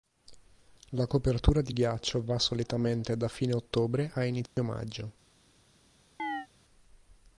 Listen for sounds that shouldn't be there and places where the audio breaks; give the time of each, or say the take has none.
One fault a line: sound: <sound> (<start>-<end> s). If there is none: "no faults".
sound: dropout (4.5-4.6 s)
sound: chirp (6.2-6.5 s)